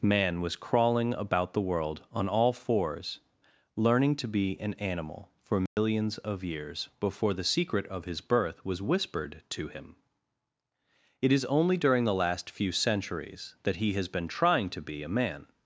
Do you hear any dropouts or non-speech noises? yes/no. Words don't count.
yes